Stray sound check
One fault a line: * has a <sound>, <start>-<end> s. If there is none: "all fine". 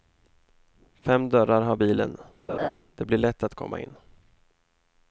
* has a laugh, 2.5-2.7 s